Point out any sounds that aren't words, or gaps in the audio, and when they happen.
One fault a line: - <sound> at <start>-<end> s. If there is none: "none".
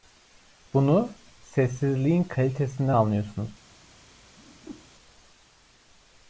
- whoosh at 4.4-4.9 s